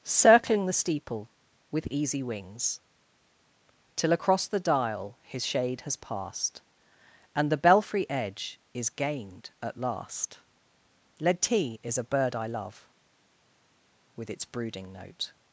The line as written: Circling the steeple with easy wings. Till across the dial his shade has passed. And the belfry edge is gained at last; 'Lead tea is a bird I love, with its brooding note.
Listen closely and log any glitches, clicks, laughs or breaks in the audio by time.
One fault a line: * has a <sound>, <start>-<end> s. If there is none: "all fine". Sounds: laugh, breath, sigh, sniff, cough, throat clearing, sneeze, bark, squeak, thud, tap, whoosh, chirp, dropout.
all fine